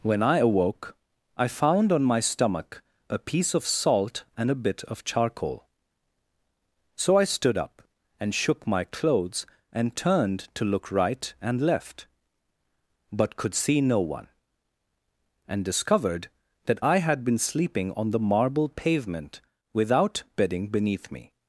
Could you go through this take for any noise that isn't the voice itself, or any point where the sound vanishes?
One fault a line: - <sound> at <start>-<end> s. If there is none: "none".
none